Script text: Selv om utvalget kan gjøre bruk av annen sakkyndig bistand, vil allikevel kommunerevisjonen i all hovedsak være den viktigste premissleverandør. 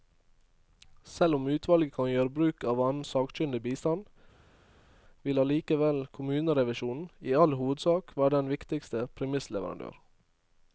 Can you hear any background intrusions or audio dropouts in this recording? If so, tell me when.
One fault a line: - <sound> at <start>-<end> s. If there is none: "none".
none